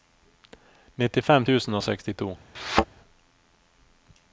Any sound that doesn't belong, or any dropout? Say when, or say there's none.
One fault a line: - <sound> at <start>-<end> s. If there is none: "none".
- thud at 2.5-2.9 s